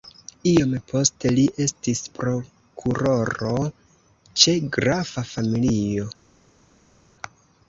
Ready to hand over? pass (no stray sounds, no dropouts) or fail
pass